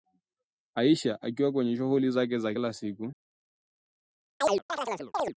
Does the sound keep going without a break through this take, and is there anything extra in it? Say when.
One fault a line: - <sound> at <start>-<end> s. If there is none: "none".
- chirp at 4.4-5.3 s